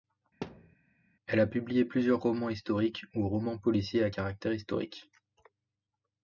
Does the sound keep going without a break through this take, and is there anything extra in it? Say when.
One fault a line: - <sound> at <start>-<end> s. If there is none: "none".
- thud at 0.4-0.8 s